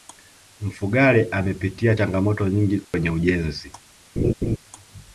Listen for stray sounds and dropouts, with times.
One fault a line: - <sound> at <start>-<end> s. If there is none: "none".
- dropout at 2.8-2.9 s
- laugh at 4.2-4.6 s